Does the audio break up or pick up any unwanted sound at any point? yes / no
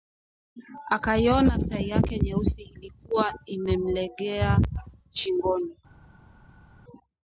no